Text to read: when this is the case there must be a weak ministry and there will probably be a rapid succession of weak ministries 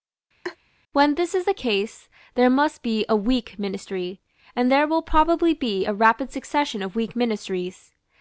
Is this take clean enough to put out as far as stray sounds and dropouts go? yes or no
no